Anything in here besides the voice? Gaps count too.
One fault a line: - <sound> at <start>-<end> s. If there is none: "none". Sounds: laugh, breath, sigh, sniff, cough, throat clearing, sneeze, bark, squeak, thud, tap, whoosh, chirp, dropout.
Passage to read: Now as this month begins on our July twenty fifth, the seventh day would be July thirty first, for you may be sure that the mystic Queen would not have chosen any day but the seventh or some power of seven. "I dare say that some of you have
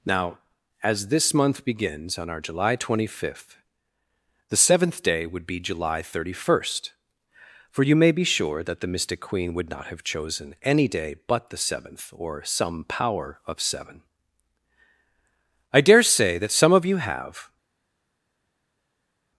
none